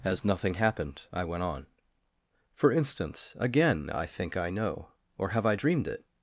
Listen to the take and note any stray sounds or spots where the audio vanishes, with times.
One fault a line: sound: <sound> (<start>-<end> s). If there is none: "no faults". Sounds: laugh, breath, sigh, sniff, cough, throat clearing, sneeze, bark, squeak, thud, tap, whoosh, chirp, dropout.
no faults